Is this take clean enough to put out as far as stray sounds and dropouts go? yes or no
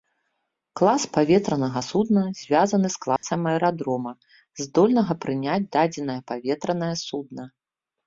no